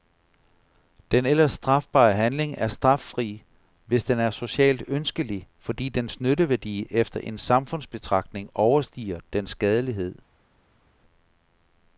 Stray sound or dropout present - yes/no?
no